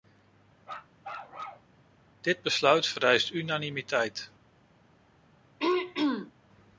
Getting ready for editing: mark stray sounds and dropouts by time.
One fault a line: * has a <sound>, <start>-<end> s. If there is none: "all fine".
* has a bark, 0.6-1.7 s
* has a throat clearing, 5.6-6.3 s